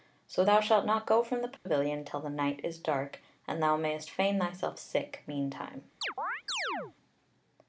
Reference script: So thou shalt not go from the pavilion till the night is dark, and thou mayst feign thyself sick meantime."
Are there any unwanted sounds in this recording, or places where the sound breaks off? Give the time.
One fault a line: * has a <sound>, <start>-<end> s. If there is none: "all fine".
* has a dropout, 1.6-1.7 s
* has a chirp, 6.0-6.9 s